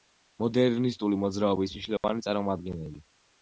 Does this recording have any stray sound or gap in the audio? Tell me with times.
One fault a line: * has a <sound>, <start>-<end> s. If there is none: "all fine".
* has a dropout, 2.0-2.0 s